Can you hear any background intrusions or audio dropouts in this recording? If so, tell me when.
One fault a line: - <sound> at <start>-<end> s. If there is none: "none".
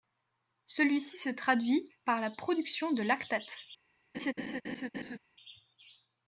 - laugh at 4.1-5.2 s